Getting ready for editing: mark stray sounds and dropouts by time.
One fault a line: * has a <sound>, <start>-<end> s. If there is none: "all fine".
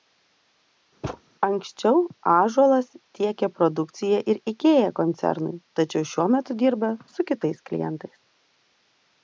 * has a thud, 1.0-1.2 s